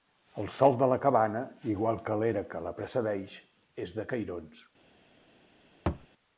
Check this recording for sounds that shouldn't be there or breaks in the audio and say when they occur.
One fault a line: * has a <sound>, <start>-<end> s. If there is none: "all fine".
* has a thud, 5.9-6.1 s